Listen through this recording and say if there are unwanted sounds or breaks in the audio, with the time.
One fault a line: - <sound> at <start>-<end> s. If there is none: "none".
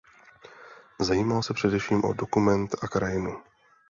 none